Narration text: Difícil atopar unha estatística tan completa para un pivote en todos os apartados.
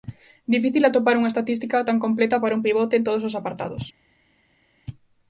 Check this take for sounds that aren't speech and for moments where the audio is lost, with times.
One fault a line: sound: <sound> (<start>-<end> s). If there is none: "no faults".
no faults